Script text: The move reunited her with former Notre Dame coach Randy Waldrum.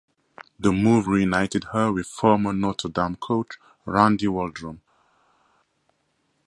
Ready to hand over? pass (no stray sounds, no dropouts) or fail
pass